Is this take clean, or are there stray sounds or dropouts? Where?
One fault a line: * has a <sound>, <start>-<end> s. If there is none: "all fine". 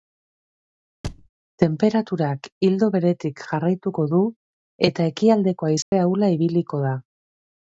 * has a thud, 1.0-1.3 s
* has a dropout, 5.8-5.9 s